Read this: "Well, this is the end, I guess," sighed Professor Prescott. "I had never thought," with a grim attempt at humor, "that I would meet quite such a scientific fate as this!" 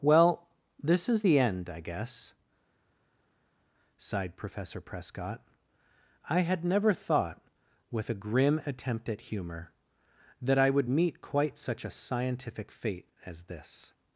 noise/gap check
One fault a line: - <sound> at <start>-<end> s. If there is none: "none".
none